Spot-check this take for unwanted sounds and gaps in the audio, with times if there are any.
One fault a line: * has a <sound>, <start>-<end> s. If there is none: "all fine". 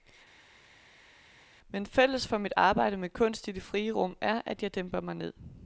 all fine